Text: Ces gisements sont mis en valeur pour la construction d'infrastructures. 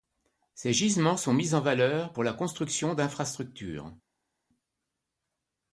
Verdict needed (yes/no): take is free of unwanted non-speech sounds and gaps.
yes